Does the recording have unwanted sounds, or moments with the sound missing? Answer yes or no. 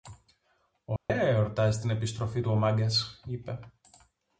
yes